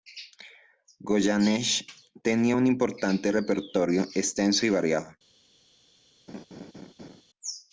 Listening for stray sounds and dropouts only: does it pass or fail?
fail